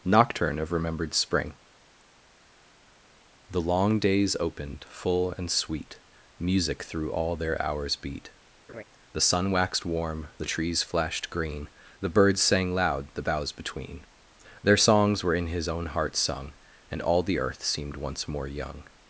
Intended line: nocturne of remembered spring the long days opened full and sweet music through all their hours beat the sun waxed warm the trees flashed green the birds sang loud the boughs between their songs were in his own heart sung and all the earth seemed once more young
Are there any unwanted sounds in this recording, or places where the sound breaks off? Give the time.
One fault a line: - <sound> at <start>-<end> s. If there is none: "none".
- laugh at 8.7-8.8 s